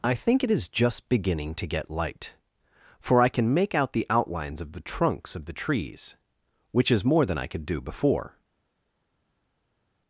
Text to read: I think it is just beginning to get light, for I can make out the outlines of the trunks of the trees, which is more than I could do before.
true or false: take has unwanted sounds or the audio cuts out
false